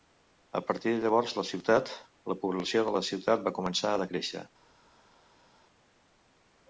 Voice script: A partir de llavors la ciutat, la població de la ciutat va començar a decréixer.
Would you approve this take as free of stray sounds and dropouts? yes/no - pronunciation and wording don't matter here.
yes